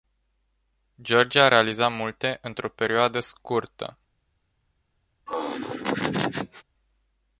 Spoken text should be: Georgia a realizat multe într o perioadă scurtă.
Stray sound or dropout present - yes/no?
yes